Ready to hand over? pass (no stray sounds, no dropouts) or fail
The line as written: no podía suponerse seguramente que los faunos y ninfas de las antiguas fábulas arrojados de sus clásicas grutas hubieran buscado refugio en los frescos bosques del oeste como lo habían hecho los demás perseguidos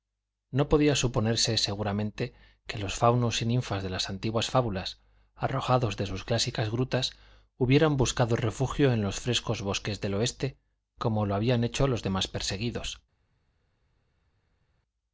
pass